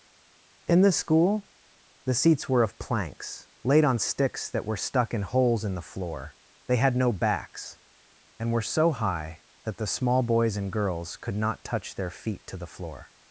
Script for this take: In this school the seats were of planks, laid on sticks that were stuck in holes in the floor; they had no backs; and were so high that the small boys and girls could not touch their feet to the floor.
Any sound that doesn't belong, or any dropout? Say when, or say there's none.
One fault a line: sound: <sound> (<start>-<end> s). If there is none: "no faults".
no faults